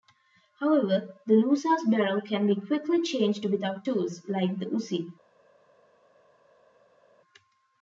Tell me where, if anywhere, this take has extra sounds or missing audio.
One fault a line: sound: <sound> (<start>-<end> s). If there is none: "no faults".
no faults